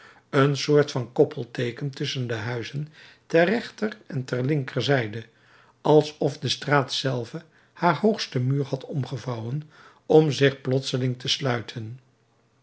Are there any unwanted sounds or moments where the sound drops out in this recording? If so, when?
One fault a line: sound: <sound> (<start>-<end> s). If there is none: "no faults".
no faults